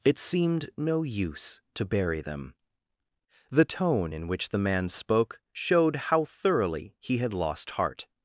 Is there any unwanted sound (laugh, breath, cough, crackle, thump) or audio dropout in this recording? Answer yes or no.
no